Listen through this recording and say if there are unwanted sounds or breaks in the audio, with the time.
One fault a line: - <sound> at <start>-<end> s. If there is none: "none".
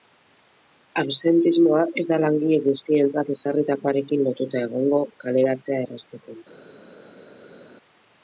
none